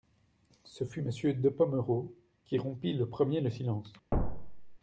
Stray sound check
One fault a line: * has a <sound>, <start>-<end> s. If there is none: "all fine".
* has a thud, 4.1-4.8 s